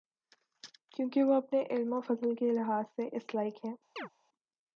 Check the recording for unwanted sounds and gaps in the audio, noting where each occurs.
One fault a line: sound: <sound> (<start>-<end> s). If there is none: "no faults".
sound: chirp (4.0-4.1 s)